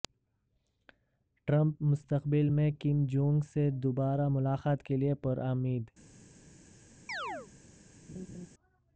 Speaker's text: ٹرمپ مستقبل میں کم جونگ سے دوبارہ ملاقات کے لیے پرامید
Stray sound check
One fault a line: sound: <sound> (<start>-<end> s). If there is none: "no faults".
sound: chirp (7.1-7.5 s)
sound: laugh (8.1-8.5 s)